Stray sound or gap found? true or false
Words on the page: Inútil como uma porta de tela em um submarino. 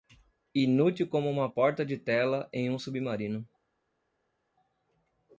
false